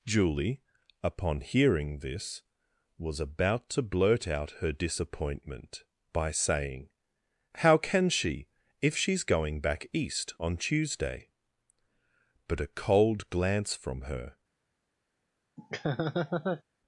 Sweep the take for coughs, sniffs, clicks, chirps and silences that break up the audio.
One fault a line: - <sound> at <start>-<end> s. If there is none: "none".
- laugh at 15.6-16.6 s